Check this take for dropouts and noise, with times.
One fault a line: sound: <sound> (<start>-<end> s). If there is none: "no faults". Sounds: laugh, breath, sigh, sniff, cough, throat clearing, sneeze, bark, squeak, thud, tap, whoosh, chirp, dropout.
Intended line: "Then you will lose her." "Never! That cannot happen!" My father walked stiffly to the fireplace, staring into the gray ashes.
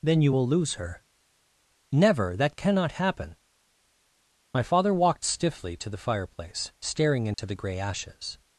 sound: dropout (7.3-7.4 s)